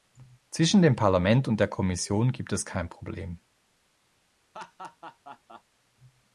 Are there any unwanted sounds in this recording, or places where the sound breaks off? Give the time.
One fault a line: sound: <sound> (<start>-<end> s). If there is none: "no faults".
sound: laugh (4.5-5.6 s)